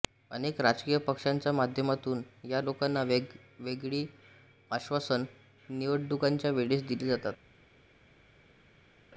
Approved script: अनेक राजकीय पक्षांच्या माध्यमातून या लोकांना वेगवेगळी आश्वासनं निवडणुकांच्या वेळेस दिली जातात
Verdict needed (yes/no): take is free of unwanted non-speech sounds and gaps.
yes